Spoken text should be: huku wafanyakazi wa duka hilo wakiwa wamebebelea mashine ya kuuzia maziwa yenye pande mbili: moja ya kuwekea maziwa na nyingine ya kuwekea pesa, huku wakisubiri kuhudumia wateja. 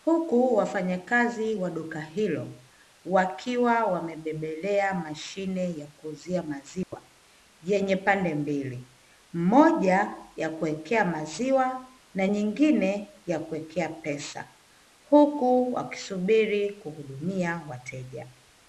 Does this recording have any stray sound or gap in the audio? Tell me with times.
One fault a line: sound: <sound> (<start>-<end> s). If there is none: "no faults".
sound: dropout (6.8-6.9 s)